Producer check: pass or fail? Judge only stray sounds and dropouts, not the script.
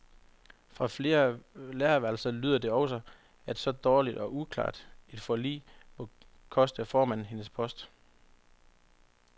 pass